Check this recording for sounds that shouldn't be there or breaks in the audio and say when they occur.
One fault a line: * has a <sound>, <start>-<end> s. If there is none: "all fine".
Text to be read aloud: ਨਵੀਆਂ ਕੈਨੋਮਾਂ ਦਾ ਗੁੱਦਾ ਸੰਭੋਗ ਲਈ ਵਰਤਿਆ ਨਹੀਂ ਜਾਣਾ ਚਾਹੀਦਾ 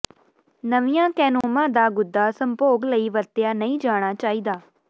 * has a dropout, 1.4-1.4 s